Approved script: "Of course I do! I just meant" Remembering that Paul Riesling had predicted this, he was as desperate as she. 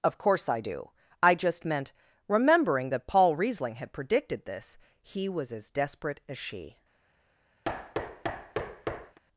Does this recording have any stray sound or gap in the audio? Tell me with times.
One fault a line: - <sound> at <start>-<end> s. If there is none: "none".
- thud at 7.6-9.2 s